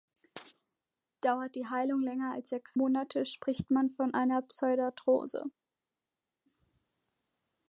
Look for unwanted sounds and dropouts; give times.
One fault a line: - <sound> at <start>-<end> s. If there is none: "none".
none